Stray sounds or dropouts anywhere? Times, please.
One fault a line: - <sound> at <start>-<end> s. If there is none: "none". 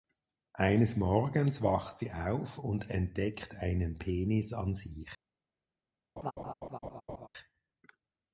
- laugh at 6.2-7.3 s